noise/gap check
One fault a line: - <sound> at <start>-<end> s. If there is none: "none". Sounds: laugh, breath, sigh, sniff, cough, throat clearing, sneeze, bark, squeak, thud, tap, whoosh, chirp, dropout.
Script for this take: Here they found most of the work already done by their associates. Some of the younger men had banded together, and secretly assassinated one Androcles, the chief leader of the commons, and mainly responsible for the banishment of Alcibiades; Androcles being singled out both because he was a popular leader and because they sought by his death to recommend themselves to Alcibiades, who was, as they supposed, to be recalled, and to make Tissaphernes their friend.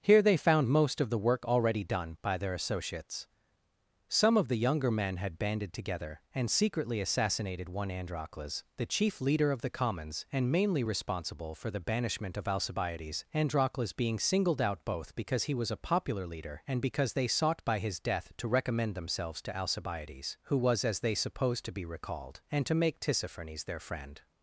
none